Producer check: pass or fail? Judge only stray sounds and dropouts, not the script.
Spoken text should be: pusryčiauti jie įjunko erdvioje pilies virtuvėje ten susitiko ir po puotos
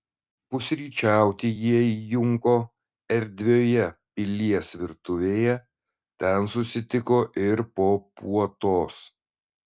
pass